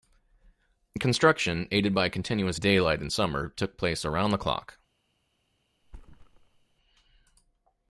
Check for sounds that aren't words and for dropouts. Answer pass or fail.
fail